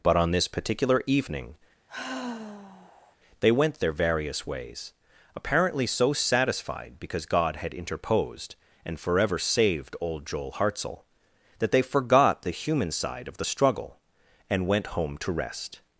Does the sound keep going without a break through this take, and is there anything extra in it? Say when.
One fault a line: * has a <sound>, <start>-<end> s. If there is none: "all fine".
* has a sigh, 1.9-3.2 s